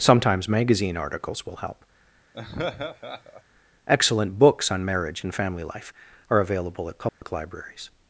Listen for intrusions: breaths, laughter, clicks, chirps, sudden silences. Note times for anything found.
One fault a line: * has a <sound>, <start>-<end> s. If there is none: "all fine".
* has a laugh, 2.3-3.4 s
* has a dropout, 7.1-7.2 s